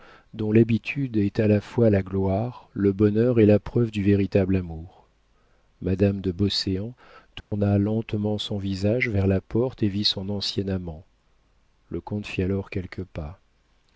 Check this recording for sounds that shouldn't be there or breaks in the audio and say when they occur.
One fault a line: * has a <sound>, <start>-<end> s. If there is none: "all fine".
* has a dropout, 7.4-7.5 s